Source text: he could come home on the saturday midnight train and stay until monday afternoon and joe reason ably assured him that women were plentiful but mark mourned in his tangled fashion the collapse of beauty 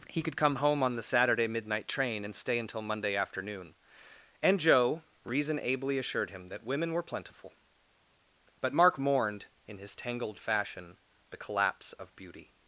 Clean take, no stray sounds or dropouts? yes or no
yes